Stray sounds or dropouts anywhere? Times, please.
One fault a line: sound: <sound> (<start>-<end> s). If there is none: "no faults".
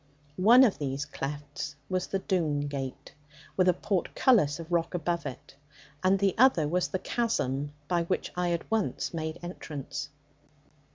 no faults